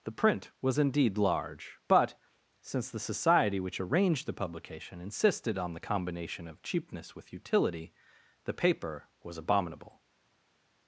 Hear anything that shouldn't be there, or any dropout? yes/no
no